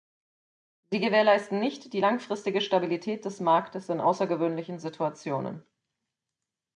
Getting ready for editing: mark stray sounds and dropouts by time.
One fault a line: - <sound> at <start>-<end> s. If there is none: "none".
none